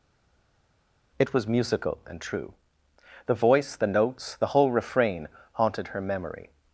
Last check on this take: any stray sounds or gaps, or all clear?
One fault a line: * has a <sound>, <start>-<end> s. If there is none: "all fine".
all fine